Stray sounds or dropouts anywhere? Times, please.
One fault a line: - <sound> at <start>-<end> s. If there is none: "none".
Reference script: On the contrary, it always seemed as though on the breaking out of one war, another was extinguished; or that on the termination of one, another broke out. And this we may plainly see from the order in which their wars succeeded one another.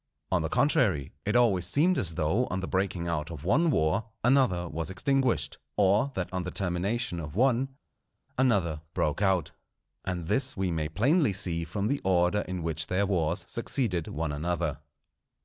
none